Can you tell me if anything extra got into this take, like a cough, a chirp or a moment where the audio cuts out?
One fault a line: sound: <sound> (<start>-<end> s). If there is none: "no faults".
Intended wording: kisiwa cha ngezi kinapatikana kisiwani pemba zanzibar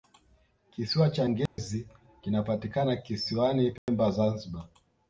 sound: dropout (1.5-1.6 s)
sound: dropout (3.8-3.9 s)